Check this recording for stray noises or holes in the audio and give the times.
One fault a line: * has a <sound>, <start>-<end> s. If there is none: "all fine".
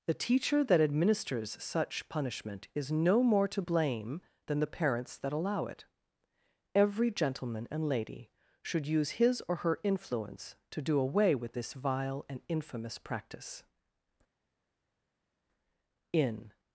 all fine